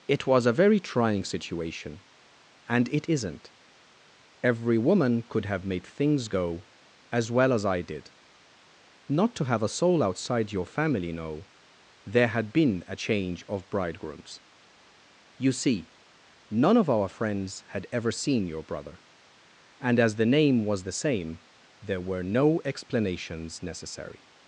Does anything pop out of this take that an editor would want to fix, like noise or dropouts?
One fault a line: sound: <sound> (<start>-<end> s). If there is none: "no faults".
no faults